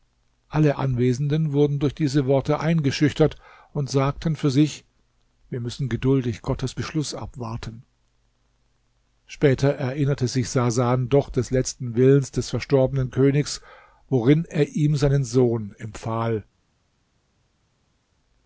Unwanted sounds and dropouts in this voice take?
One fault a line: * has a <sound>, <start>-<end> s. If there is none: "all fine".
all fine